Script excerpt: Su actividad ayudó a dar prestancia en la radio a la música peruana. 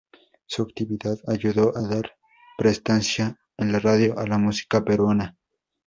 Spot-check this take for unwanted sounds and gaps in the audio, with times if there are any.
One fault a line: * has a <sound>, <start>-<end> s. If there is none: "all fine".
all fine